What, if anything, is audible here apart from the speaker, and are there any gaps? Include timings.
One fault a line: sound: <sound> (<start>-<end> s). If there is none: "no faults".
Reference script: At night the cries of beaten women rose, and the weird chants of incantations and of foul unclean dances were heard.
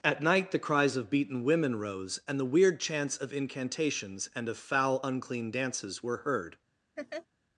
sound: laugh (7.0-7.3 s)